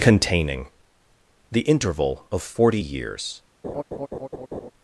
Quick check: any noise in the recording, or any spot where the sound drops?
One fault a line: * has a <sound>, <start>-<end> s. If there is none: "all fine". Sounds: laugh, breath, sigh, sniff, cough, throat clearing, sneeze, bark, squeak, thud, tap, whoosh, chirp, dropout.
* has a laugh, 3.6-4.7 s